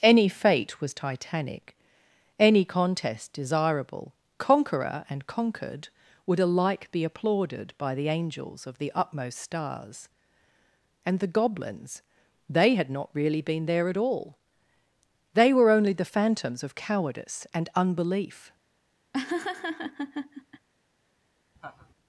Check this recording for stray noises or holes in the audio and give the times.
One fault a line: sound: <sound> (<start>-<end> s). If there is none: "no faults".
sound: laugh (19.1-20.7 s)
sound: laugh (21.6-21.9 s)